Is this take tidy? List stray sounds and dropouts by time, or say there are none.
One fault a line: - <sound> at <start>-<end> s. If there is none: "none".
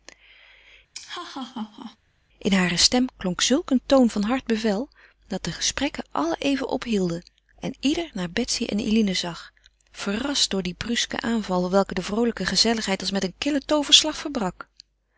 - laugh at 0.9-2.0 s